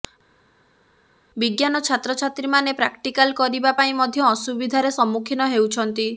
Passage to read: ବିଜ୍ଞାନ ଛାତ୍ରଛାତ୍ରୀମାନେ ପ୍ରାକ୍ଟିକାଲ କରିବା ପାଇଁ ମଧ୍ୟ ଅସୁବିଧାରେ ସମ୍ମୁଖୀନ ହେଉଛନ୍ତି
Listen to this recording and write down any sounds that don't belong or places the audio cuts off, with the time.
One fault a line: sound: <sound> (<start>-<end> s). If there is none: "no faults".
no faults